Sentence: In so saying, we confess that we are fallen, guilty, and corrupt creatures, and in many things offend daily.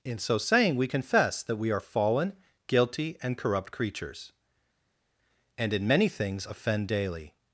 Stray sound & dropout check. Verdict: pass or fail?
pass